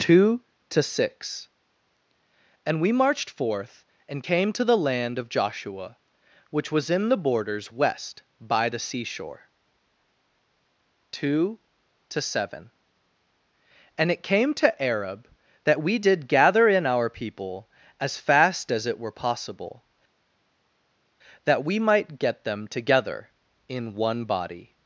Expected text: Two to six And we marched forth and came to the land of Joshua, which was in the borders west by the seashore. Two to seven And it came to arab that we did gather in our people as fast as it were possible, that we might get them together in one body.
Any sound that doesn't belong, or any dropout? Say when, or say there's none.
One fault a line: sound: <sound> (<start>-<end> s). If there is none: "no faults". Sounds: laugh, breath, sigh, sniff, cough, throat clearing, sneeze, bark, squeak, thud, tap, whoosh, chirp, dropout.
no faults